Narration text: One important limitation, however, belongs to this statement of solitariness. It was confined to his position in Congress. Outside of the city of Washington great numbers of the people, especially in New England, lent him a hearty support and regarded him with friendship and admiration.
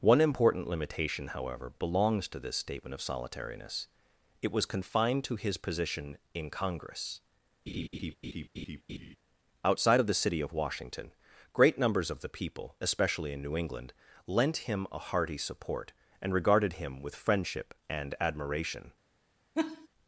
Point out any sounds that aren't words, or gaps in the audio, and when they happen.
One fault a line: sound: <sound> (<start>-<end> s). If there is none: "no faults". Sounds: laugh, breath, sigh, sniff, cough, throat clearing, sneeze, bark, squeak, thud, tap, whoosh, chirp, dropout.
sound: laugh (7.7-9.2 s)
sound: laugh (19.5-19.9 s)